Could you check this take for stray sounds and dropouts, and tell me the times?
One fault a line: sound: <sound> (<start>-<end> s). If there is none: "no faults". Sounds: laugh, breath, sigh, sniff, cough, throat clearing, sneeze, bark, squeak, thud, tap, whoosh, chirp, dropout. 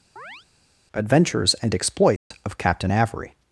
sound: chirp (0.2-0.5 s)
sound: dropout (2.2-2.3 s)